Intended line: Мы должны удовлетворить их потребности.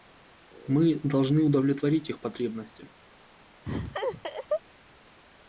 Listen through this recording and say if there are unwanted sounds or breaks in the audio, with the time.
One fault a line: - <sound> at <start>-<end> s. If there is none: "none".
- laugh at 3.7-4.6 s